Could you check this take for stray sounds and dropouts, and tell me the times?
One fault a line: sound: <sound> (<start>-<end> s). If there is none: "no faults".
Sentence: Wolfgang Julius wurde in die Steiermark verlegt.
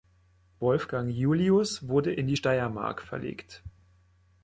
no faults